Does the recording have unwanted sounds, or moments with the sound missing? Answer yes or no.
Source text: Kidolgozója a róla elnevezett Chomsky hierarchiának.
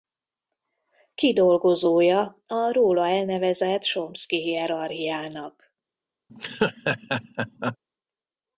yes